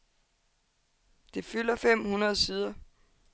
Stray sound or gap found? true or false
false